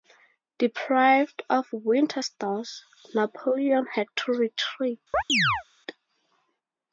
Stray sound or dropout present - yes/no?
yes